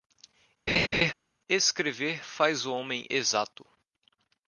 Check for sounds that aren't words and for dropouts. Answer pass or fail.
fail